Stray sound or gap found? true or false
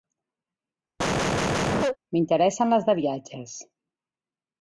true